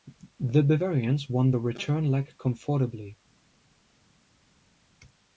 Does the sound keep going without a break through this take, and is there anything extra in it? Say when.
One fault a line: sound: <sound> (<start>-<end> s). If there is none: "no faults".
no faults